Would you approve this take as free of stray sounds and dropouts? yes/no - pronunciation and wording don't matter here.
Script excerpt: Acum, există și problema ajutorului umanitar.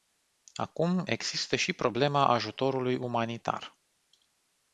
yes